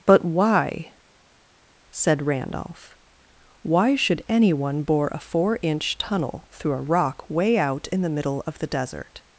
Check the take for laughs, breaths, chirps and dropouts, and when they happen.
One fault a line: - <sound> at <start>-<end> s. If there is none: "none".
none